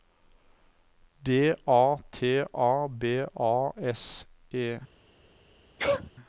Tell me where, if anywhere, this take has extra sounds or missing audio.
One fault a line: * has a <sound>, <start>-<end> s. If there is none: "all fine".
* has a sneeze, 5.8-6.1 s